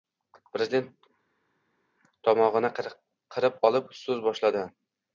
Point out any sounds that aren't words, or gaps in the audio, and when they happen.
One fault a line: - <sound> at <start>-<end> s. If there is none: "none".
none